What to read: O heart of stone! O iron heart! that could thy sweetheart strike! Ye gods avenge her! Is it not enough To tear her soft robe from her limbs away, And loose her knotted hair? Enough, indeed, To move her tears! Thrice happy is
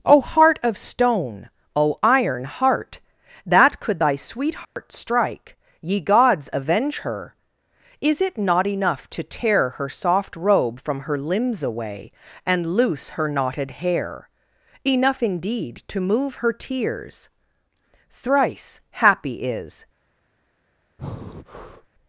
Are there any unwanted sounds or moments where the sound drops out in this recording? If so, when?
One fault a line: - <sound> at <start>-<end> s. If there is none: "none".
- dropout at 4.6-4.8 s
- breath at 21.0-21.9 s